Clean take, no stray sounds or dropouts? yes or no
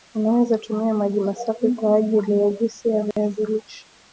no